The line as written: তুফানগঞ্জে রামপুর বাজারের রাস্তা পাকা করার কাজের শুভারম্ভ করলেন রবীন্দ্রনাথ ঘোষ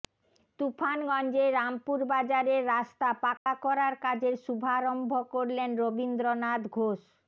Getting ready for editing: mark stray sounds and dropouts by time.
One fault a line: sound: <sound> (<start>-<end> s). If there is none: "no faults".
sound: dropout (3.4-3.5 s)